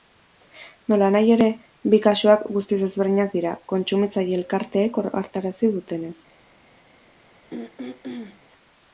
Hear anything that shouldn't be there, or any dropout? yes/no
yes